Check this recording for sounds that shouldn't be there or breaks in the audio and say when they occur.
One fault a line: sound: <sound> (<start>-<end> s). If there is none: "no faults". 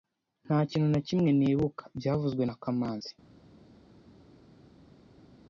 no faults